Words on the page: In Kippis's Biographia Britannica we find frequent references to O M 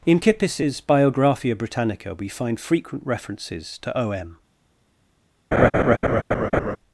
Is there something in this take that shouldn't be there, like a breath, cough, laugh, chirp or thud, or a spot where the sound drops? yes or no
yes